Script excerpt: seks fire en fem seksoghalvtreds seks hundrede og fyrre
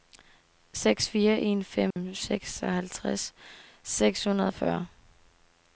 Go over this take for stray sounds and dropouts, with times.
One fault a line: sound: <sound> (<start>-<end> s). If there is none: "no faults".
sound: dropout (1.9-2.0 s)